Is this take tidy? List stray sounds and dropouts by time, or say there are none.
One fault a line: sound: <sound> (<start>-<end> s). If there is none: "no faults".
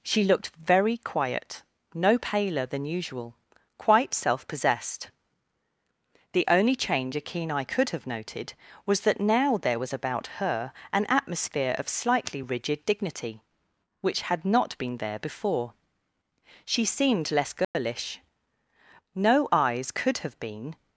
sound: dropout (17.6-17.7 s)